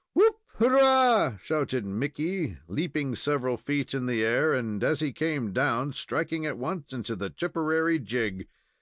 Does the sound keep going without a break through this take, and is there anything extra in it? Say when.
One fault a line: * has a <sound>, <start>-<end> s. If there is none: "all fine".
all fine